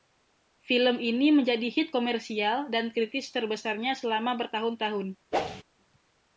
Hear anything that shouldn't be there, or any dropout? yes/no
yes